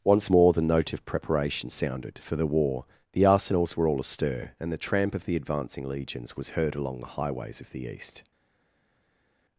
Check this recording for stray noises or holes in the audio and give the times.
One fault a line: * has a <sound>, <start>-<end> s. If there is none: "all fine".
all fine